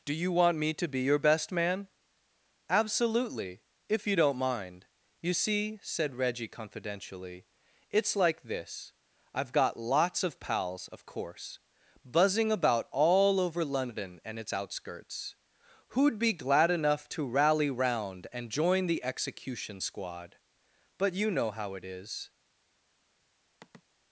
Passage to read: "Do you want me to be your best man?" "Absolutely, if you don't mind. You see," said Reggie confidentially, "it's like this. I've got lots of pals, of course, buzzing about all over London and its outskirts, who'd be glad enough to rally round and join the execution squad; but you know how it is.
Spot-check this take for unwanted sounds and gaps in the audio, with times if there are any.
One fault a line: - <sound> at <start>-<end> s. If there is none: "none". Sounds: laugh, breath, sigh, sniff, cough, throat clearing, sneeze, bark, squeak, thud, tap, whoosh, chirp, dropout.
- sigh at 23.6-23.8 s